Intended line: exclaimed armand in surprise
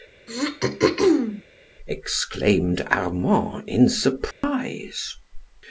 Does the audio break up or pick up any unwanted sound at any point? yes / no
yes